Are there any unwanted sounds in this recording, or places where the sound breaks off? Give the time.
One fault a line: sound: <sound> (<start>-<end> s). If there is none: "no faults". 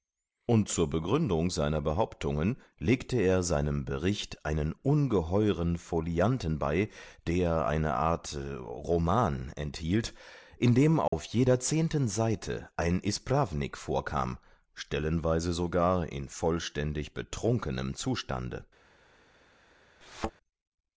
sound: dropout (11.1-11.1 s)
sound: thud (20.0-20.3 s)